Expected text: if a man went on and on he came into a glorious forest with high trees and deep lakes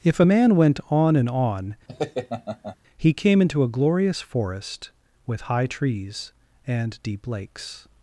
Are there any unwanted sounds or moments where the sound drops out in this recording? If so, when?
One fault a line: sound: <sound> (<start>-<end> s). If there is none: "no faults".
sound: laugh (1.9-2.8 s)